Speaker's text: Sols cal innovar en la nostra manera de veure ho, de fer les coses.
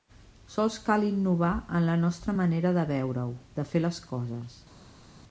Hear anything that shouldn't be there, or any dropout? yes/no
no